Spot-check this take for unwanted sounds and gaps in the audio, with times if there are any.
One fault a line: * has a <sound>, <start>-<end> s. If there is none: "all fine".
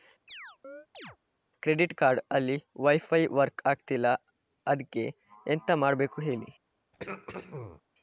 * has a chirp, 0.3-1.2 s
* has a throat clearing, 6.9-7.8 s